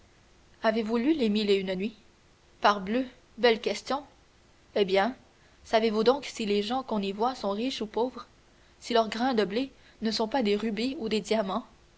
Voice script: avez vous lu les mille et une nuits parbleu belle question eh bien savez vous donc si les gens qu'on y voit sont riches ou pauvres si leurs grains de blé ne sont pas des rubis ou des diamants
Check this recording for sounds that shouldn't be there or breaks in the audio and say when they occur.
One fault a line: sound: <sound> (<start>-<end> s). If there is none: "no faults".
no faults